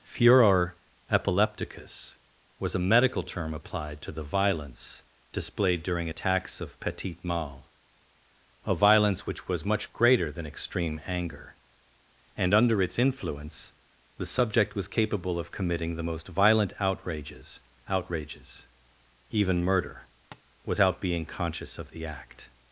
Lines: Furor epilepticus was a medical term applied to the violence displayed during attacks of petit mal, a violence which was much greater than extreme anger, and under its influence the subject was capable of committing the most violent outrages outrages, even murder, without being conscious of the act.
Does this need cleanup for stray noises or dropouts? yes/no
yes